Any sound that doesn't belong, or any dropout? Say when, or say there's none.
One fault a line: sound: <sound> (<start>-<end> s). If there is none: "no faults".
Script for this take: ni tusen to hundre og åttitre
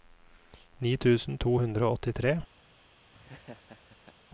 sound: laugh (3.1-4.2 s)